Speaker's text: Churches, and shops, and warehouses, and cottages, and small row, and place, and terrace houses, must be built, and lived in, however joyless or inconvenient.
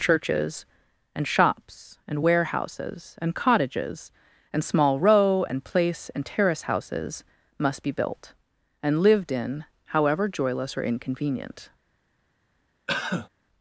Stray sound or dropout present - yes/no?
yes